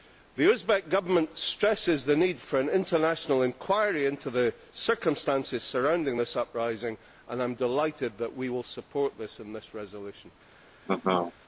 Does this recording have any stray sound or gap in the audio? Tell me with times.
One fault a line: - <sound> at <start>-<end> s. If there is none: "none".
- laugh at 10.9-11.3 s